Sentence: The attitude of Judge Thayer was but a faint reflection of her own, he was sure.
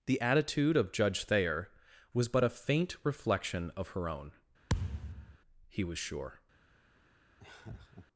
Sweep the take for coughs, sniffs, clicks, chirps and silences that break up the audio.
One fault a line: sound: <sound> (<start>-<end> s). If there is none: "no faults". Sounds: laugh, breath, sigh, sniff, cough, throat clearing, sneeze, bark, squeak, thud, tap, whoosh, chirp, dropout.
sound: thud (4.7-5.4 s)
sound: laugh (7.4-8.1 s)